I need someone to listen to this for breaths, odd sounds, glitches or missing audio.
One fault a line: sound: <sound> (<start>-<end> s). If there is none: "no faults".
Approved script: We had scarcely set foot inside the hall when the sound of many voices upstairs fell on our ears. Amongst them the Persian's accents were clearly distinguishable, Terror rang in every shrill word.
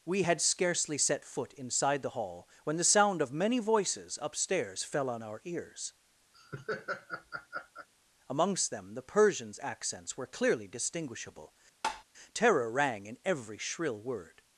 sound: laugh (6.3-7.9 s)
sound: tap (11.8-12.0 s)